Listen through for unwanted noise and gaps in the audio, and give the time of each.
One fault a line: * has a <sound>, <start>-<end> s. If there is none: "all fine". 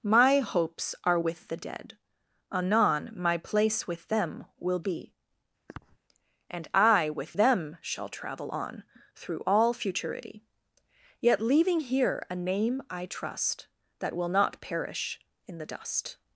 * has a sniff, 5.7-6.0 s